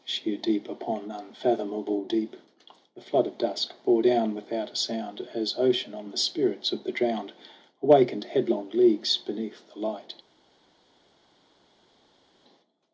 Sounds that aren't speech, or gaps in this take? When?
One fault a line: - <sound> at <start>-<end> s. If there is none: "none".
none